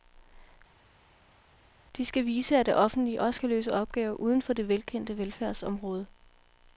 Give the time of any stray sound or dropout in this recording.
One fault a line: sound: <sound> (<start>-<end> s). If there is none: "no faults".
no faults